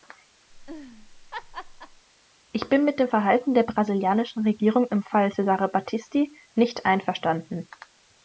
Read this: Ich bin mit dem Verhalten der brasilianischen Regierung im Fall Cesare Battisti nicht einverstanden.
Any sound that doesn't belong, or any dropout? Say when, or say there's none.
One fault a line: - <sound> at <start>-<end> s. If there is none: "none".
- laugh at 0.5-2.0 s